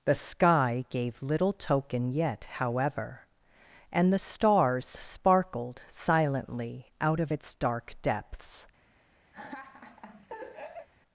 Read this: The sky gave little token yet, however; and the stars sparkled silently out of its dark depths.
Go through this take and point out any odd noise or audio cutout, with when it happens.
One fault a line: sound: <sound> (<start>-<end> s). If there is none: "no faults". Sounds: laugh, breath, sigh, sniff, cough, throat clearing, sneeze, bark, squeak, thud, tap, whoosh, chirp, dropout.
sound: laugh (9.3-10.9 s)